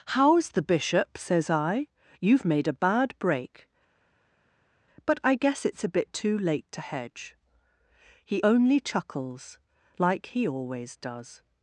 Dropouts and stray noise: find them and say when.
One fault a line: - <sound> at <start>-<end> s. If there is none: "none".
none